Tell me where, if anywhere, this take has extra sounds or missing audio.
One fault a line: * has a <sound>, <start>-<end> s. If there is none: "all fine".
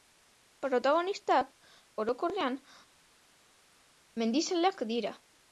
all fine